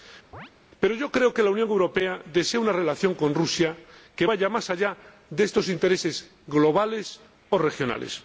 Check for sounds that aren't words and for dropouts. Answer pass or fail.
fail